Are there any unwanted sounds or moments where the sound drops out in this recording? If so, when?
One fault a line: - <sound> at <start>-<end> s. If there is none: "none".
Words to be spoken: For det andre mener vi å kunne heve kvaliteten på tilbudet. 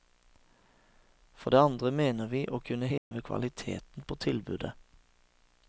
- dropout at 3.0-3.1 s